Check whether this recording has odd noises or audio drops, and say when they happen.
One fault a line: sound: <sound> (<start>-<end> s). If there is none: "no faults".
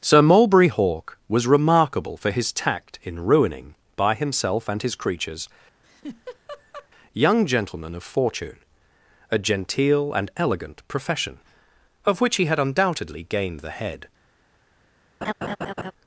sound: laugh (5.8-6.9 s)
sound: laugh (15.2-15.9 s)